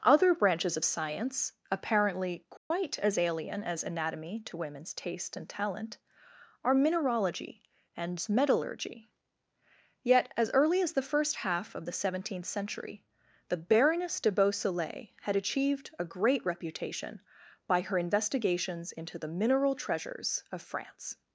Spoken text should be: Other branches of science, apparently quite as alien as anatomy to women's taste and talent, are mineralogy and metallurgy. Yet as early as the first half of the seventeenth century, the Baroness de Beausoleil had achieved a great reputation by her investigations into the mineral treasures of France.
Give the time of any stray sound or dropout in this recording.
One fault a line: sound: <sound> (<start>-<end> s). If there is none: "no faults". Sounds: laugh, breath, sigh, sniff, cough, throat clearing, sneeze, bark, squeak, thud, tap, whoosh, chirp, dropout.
sound: dropout (2.6-2.7 s)